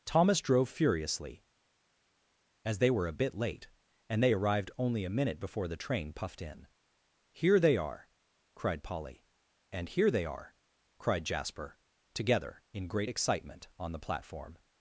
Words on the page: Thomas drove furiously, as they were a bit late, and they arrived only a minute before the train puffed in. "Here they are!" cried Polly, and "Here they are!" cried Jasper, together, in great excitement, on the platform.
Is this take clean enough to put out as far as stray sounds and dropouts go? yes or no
yes